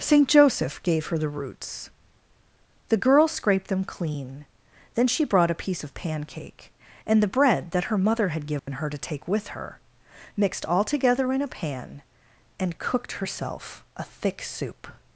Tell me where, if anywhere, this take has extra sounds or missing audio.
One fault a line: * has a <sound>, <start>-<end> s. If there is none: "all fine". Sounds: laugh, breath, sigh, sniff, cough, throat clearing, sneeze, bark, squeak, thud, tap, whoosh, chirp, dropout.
* has a dropout, 8.6-8.7 s